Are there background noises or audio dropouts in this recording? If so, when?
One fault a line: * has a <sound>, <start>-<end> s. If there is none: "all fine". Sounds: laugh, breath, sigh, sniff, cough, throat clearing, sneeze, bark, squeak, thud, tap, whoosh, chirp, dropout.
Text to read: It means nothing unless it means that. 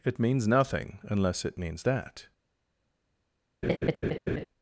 * has a laugh, 3.6-4.5 s